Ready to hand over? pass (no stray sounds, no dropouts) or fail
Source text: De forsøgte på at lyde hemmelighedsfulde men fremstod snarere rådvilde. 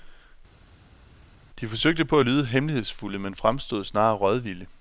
pass